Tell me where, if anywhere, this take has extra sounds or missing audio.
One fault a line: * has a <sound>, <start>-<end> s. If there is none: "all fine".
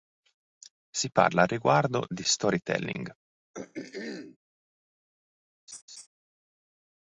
* has a throat clearing, 3.5-4.4 s
* has a laugh, 5.7-6.1 s